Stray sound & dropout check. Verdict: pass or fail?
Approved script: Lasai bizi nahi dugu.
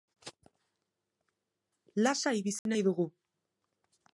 fail